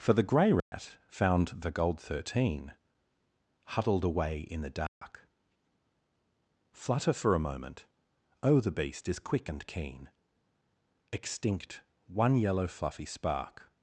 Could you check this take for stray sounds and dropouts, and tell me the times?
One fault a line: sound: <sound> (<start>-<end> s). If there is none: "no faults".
sound: dropout (0.6-0.7 s)
sound: dropout (4.9-5.0 s)